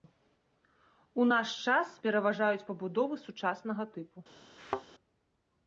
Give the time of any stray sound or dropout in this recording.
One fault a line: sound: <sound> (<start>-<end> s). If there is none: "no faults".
sound: thud (4.6-4.8 s)